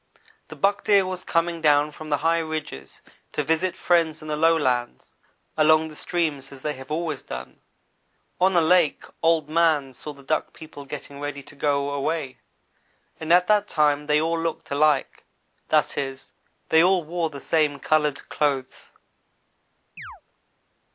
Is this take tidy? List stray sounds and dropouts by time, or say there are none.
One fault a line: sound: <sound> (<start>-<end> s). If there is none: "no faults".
sound: chirp (20.0-20.2 s)